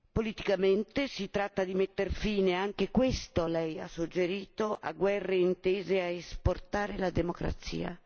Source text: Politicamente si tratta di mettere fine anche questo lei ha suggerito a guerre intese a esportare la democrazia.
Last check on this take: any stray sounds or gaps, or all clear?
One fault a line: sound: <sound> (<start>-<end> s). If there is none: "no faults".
no faults